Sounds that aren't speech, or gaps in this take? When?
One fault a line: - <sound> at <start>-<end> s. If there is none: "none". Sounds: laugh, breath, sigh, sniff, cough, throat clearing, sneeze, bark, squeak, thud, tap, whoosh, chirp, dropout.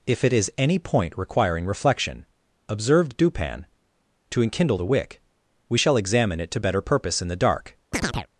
- chirp at 7.9-8.3 s